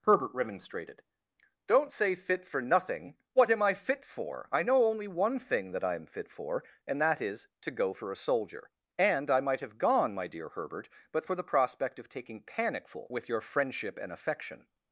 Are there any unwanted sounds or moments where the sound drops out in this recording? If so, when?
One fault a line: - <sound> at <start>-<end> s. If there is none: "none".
none